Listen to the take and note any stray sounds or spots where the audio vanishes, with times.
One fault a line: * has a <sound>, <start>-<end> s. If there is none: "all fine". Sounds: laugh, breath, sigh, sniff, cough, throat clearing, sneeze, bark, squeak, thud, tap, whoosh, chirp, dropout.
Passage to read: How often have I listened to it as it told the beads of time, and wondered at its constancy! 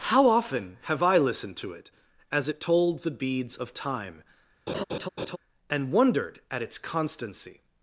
* has a laugh, 4.7-5.4 s